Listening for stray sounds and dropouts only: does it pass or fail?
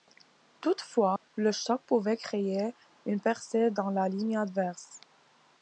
fail